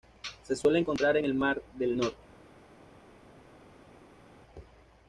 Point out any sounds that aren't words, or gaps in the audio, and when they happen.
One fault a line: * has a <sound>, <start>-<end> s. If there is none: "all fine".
all fine